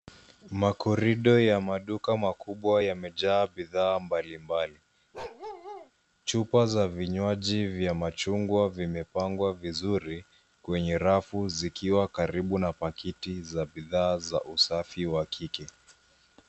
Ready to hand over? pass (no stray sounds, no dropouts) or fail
fail